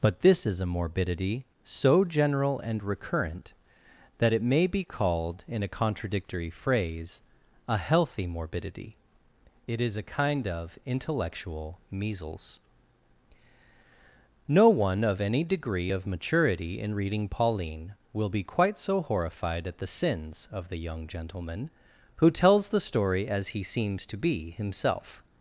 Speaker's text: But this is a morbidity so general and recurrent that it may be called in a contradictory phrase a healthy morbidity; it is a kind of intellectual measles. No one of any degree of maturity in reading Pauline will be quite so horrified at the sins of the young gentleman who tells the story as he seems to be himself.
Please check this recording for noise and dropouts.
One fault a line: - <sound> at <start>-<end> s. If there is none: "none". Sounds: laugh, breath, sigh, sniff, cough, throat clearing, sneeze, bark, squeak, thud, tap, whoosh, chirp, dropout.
none